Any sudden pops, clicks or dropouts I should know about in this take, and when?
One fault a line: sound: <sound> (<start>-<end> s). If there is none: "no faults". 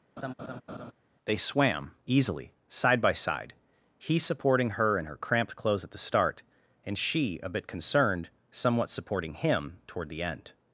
sound: laugh (0.2-0.9 s)